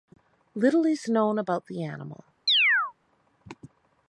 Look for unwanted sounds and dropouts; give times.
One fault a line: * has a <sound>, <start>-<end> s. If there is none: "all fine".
* has a chirp, 2.5-2.9 s